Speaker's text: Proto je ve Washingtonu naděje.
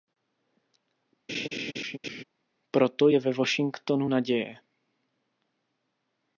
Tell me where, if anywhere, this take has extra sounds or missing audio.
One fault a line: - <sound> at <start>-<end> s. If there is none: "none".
- laugh at 1.3-2.2 s